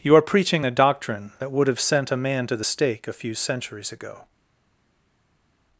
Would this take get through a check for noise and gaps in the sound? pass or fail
pass